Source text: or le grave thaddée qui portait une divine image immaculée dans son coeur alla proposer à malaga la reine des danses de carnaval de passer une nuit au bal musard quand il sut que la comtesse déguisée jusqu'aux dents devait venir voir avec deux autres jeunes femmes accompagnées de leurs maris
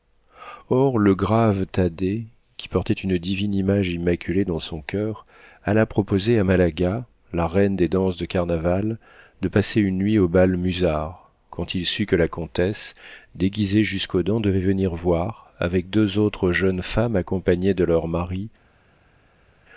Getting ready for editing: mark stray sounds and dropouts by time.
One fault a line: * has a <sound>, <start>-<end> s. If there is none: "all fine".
all fine